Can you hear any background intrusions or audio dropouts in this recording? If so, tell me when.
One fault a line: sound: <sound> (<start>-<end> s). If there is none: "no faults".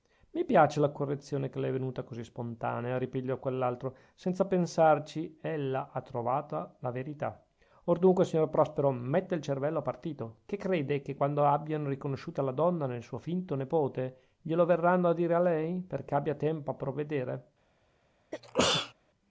sound: sneeze (18.3-18.9 s)